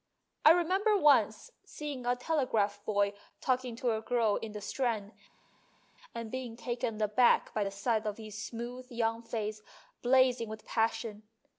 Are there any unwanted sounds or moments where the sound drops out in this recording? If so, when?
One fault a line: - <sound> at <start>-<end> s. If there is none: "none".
none